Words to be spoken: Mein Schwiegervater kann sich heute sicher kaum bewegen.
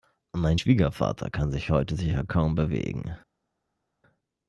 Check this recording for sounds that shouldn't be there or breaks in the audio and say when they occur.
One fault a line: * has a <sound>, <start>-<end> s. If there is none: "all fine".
all fine